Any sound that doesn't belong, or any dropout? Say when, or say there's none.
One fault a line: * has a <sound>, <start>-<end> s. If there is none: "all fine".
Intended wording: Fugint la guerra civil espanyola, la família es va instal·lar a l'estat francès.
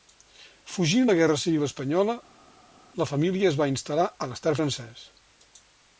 all fine